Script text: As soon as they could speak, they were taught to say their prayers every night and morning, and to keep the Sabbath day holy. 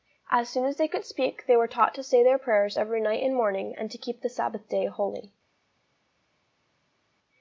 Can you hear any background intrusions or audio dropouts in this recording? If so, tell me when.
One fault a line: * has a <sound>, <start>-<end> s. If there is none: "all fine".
all fine